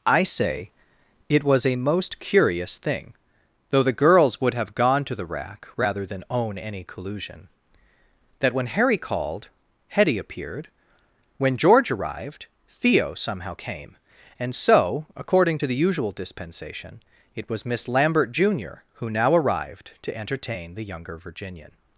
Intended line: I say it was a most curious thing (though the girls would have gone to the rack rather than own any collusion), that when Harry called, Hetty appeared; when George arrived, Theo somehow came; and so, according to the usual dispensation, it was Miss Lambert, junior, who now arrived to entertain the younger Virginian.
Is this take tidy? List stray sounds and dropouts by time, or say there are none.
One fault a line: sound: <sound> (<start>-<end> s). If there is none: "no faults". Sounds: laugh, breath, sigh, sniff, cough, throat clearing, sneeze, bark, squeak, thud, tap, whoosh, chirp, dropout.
no faults